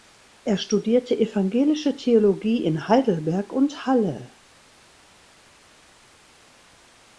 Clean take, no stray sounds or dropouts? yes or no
yes